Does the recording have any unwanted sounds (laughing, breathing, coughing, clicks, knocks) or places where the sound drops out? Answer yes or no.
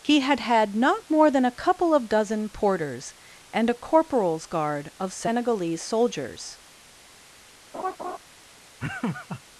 yes